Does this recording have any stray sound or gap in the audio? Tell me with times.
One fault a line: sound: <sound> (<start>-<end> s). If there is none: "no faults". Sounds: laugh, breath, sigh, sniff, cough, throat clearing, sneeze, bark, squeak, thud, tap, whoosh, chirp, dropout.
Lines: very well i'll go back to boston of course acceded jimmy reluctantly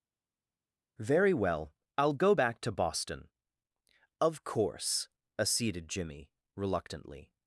no faults